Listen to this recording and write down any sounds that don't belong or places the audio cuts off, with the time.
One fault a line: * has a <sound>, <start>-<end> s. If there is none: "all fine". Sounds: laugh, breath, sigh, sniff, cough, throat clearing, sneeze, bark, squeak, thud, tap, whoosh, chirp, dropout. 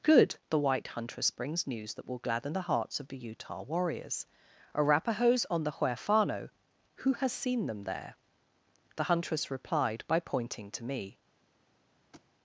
* has a thud, 12.1-12.3 s